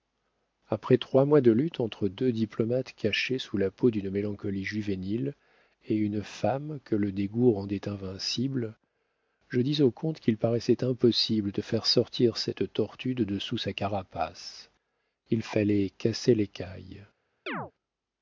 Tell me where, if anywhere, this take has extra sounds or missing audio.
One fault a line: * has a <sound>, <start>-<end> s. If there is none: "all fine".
* has a chirp, 17.5-17.7 s